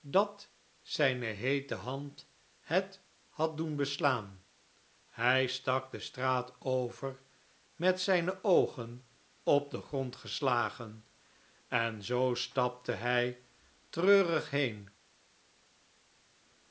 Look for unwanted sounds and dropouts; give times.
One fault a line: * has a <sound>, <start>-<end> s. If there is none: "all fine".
all fine